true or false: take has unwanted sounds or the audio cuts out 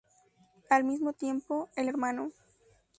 false